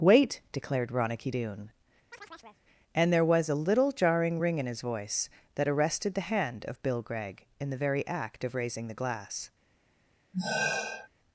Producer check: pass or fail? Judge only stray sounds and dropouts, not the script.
fail